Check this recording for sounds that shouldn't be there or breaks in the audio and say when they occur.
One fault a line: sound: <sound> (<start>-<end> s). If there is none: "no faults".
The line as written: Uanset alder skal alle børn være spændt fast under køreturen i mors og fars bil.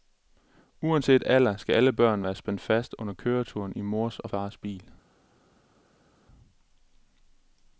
no faults